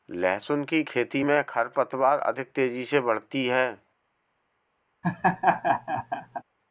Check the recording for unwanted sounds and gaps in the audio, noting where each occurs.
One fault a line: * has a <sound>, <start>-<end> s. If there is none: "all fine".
* has a laugh, 5.0-6.4 s